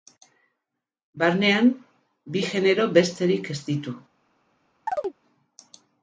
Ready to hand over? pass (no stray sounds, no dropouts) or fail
fail